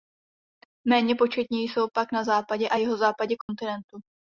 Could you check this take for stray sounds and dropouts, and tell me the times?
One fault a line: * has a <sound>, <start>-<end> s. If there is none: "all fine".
* has a dropout, 3.4-3.5 s